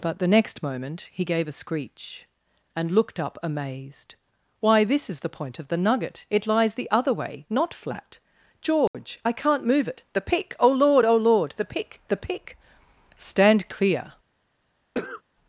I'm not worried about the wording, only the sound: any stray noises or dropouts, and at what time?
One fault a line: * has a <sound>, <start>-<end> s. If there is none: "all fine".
* has a dropout, 8.9-8.9 s
* has a cough, 14.9-15.2 s